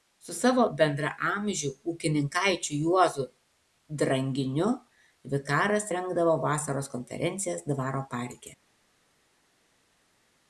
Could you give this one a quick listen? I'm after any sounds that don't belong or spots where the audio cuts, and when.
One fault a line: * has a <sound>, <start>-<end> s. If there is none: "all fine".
all fine